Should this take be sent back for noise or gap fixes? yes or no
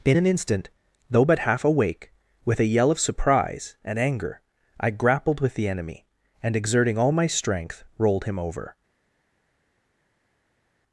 no